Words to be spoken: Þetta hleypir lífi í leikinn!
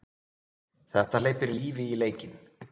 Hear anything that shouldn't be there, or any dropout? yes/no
no